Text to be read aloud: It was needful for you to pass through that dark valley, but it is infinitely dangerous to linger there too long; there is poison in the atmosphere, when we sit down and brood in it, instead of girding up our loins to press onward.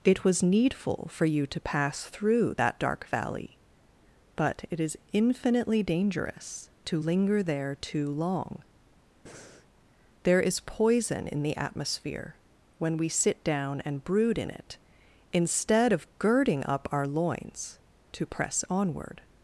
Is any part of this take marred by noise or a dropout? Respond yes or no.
yes